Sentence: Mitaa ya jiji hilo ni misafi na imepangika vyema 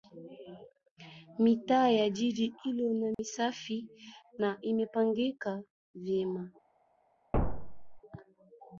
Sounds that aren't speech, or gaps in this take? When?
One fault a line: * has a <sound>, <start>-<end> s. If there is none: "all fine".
* has a dropout, 3.1-3.2 s
* has a thud, 7.3-8.0 s